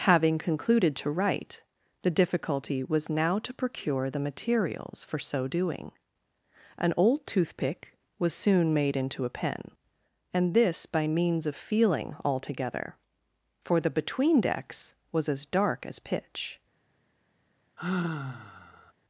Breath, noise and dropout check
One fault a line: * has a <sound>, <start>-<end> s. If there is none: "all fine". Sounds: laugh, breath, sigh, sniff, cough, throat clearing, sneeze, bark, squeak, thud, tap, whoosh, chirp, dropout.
* has a sigh, 17.8-18.9 s